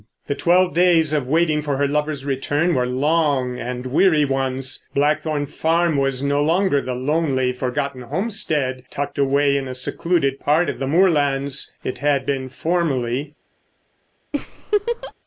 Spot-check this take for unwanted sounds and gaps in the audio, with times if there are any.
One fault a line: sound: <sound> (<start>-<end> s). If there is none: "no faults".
sound: laugh (14.3-15.1 s)